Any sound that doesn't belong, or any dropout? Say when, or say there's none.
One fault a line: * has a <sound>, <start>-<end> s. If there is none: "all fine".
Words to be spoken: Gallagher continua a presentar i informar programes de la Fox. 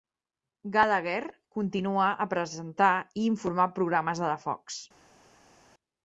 all fine